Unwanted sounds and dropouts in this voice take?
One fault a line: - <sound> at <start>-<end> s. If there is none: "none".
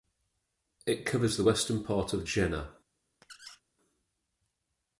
- squeak at 3.2-3.6 s